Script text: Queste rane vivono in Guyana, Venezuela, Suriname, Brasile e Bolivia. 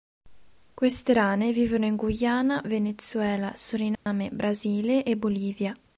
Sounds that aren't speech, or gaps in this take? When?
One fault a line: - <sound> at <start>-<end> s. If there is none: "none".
- dropout at 4.0-4.1 s